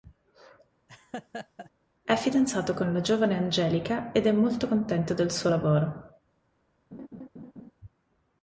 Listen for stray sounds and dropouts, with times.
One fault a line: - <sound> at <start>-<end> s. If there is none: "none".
- laugh at 0.9-1.7 s
- laugh at 6.9-7.7 s